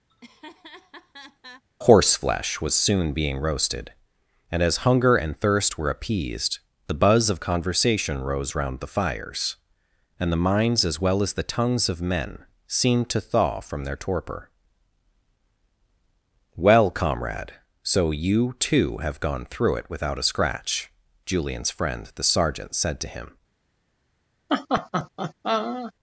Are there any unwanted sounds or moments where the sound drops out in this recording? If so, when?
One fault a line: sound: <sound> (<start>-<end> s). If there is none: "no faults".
sound: laugh (0.1-1.6 s)
sound: laugh (24.5-25.9 s)